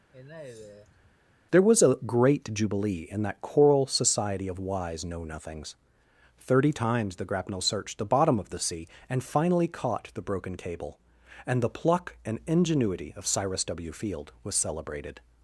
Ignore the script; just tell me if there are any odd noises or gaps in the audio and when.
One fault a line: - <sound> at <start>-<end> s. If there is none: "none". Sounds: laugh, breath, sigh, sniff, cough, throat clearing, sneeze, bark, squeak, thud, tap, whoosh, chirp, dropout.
- sigh at 0.1-1.2 s